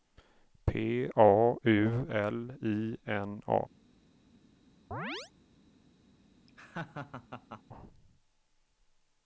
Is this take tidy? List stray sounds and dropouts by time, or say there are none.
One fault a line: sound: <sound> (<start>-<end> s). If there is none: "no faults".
sound: chirp (4.9-5.3 s)
sound: laugh (6.5-7.6 s)